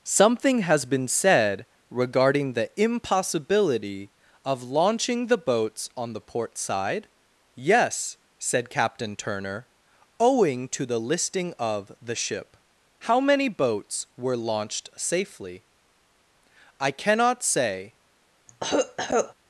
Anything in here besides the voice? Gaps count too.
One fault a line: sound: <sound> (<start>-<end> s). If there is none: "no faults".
sound: cough (18.5-19.3 s)